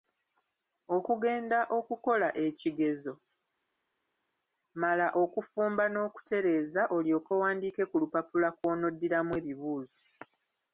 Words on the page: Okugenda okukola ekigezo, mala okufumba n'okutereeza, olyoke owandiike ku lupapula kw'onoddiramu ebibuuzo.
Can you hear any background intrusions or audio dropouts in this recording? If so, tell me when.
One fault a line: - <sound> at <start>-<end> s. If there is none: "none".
none